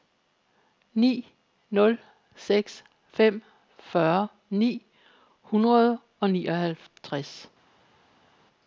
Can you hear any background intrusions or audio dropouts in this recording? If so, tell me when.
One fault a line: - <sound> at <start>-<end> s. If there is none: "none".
none